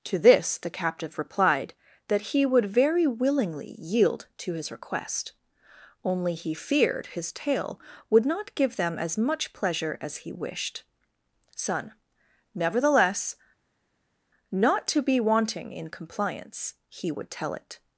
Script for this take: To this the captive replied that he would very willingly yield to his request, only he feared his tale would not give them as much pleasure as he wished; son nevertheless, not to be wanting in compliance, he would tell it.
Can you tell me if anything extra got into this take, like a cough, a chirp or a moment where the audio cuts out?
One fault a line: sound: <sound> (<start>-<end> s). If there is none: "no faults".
no faults